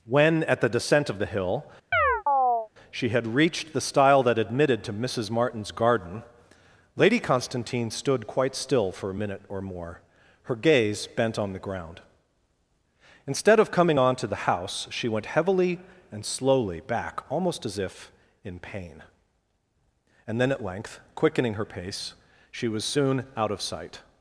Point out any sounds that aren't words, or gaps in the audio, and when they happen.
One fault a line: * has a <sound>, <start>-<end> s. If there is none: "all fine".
* has a chirp, 1.9-2.7 s